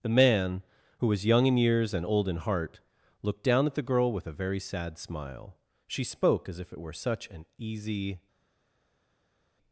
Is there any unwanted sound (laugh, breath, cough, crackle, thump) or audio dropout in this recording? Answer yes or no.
no